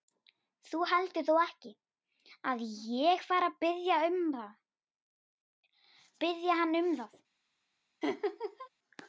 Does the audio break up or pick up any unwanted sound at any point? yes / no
yes